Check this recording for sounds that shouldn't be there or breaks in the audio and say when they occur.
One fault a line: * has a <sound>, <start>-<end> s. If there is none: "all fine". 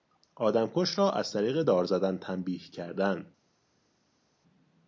all fine